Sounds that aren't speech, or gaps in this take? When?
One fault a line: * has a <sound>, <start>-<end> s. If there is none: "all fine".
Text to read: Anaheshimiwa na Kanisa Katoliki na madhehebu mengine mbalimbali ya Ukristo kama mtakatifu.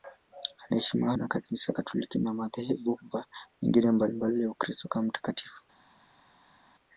all fine